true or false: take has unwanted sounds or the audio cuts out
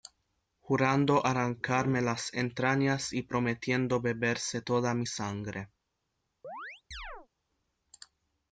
true